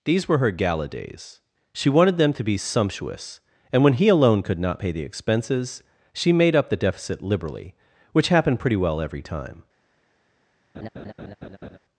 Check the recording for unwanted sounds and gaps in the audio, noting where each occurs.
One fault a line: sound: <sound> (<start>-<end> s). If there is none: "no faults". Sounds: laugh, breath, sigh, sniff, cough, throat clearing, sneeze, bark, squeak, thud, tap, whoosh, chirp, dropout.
sound: laugh (10.7-11.8 s)